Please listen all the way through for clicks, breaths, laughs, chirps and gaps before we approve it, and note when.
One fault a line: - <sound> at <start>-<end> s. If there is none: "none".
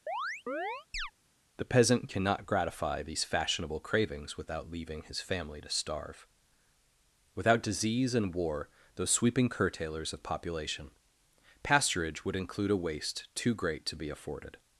- chirp at 0.1-1.1 s